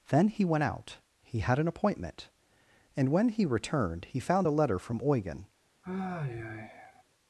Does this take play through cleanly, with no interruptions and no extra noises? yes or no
no